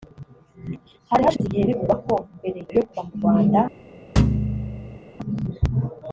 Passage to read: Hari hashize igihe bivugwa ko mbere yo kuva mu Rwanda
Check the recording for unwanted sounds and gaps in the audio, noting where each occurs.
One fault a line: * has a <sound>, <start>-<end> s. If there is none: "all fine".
* has a dropout, 1.4-1.4 s
* has a thud, 4.2-5.0 s